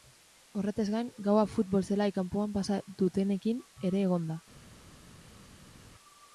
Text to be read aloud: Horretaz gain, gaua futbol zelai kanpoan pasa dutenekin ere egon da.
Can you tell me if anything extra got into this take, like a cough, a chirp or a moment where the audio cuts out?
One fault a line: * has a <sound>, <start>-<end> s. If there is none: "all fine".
all fine